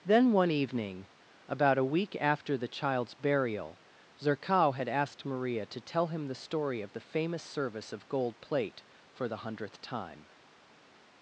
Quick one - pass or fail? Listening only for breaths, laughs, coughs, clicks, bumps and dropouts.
pass